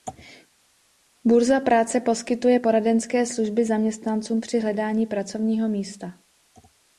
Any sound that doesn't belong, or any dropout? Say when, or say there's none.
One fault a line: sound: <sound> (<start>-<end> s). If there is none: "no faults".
no faults